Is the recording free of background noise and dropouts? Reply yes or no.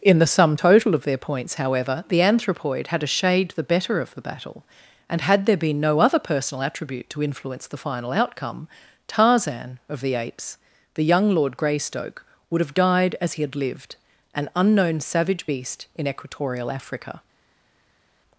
yes